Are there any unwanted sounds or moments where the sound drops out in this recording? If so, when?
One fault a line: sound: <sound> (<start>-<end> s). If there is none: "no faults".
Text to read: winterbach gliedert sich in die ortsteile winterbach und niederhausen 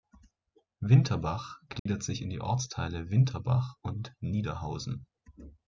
sound: dropout (1.8-1.9 s)